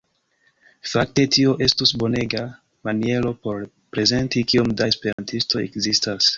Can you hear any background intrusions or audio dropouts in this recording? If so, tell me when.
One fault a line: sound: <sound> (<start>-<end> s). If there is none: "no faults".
sound: dropout (5.1-5.2 s)